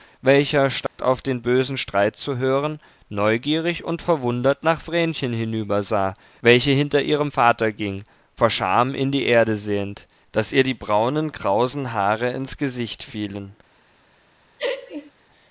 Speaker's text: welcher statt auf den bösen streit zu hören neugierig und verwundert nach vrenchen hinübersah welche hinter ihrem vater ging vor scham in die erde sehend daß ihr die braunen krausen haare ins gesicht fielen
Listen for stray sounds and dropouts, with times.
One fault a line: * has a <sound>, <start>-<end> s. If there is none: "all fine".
* has a dropout, 0.9-1.0 s
* has a laugh, 14.6-15.1 s